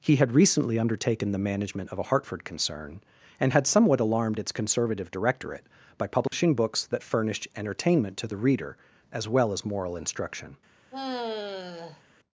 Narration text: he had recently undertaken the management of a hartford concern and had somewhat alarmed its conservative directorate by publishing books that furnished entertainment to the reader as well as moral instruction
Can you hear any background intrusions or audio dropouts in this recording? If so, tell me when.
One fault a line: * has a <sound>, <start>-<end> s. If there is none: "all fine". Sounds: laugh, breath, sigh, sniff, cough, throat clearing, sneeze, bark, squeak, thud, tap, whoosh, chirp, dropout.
* has a dropout, 6.3-6.3 s
* has a sigh, 10.9-12.0 s